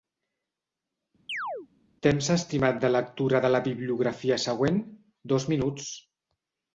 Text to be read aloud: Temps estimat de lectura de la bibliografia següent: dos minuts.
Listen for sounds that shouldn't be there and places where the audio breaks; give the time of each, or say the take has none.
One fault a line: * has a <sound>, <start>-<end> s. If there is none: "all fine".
* has a chirp, 1.3-1.7 s